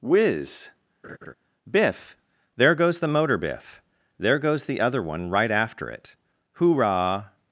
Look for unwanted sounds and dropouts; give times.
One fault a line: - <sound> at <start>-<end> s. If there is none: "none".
- laugh at 1.0-1.3 s